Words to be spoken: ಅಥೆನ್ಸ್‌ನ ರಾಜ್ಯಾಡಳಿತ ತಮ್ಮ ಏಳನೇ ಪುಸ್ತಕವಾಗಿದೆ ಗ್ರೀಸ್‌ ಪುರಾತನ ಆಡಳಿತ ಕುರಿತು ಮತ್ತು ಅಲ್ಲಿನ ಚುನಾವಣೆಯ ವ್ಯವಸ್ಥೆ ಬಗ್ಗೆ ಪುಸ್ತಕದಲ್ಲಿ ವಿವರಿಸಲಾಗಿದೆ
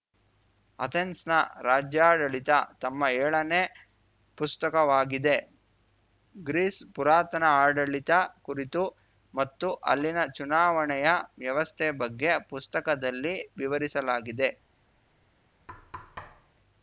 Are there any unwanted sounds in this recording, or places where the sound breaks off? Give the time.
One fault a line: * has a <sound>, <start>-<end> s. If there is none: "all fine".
* has a thud, 15.7-16.5 s